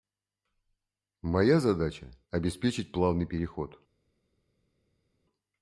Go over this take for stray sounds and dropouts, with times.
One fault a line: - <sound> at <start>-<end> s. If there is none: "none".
none